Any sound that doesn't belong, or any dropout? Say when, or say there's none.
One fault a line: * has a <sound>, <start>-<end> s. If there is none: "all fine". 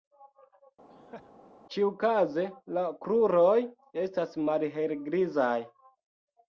* has a laugh, 0.9-1.3 s